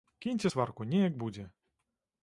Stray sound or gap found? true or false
false